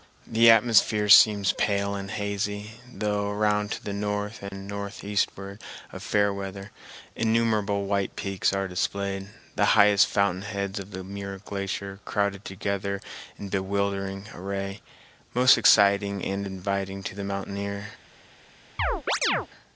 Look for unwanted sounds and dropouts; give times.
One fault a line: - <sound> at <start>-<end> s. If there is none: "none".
- dropout at 4.5-4.5 s
- chirp at 18.8-19.5 s